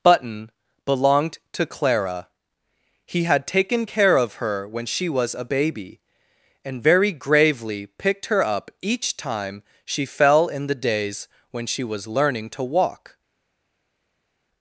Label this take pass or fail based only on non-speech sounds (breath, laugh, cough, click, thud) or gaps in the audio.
pass